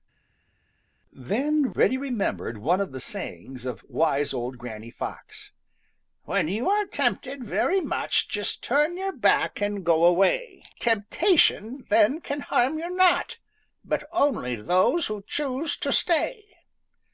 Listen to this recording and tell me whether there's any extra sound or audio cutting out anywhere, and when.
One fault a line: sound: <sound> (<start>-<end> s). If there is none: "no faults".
no faults